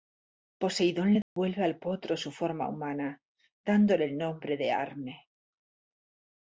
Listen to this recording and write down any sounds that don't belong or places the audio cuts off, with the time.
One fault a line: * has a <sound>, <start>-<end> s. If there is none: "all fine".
* has a dropout, 1.2-1.4 s